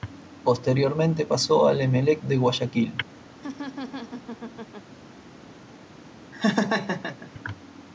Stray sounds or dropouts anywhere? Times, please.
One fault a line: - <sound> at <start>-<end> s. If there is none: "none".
- laugh at 3.4-4.9 s
- laugh at 6.3-7.3 s